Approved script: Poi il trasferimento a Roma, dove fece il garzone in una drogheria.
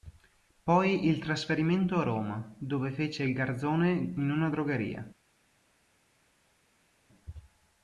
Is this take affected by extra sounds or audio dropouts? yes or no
no